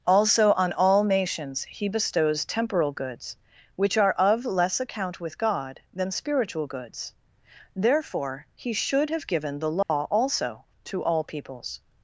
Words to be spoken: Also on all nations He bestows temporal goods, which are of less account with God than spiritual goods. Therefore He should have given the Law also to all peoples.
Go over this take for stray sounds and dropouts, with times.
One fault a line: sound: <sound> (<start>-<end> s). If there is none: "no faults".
sound: dropout (9.8-9.9 s)